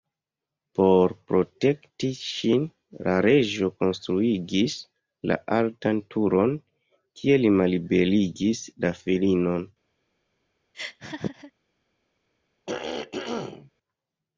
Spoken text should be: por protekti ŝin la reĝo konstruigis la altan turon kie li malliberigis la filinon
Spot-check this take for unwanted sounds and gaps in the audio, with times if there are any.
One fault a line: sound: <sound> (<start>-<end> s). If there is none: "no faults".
sound: laugh (10.7-11.5 s)
sound: throat clearing (12.7-13.7 s)